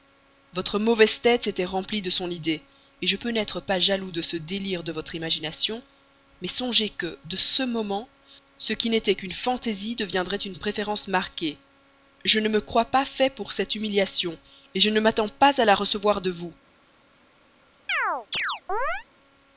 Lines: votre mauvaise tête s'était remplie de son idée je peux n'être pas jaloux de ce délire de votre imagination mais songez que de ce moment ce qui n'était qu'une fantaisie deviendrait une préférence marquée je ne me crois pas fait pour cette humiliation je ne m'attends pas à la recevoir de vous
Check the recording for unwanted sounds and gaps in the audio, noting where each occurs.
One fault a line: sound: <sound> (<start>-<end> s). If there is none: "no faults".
sound: chirp (17.9-19.1 s)